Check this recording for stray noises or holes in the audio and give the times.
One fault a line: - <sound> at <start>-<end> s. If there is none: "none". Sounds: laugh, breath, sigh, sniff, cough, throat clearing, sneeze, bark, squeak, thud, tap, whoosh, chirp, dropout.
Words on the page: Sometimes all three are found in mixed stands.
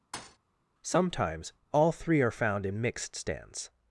- thud at 0.1-0.4 s